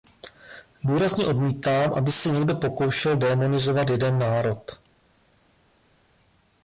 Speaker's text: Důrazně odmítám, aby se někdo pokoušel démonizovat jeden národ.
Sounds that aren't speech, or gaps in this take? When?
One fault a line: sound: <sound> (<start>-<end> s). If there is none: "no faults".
no faults